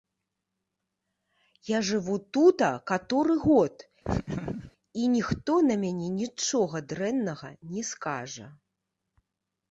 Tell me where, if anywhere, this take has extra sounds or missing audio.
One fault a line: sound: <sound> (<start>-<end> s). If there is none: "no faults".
sound: laugh (4.0-4.7 s)